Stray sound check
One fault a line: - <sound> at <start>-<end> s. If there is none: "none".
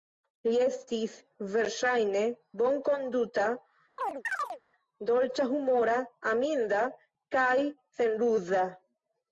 - chirp at 4.0-4.6 s